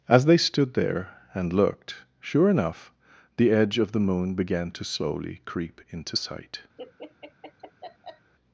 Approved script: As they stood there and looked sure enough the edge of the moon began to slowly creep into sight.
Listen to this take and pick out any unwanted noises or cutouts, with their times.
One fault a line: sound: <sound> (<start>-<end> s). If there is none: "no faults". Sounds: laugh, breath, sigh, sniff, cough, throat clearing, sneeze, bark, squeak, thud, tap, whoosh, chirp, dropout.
sound: laugh (6.8-8.3 s)